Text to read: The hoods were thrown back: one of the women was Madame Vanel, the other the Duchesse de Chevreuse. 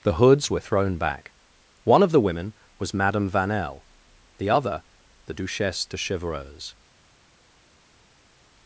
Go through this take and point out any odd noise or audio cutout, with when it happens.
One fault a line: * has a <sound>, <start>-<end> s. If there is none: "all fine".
all fine